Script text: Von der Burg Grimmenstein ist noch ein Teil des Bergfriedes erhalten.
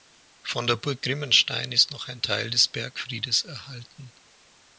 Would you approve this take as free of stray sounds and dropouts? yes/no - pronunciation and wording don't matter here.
yes